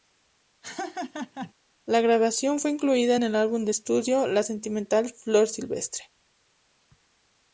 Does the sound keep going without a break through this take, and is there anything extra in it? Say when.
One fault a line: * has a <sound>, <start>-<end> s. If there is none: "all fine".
* has a laugh, 0.6-1.5 s